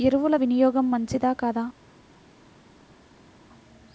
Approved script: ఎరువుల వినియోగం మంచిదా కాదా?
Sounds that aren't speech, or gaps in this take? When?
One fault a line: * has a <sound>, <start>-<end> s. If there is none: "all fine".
all fine